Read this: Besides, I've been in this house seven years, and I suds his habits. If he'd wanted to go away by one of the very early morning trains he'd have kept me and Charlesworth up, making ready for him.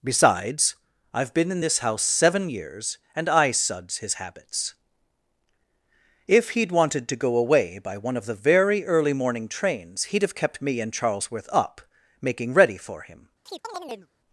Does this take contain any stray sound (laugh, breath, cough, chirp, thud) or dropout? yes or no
yes